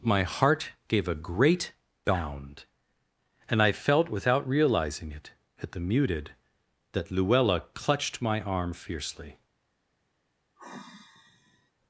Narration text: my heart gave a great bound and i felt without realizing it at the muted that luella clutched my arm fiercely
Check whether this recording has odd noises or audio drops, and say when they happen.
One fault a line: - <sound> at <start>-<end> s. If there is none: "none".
- sigh at 10.6-11.7 s